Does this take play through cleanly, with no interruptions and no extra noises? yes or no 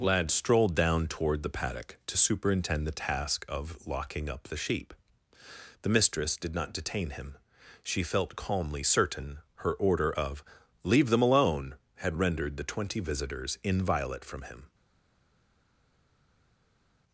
yes